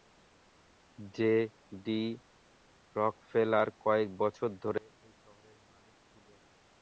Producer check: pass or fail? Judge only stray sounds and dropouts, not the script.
pass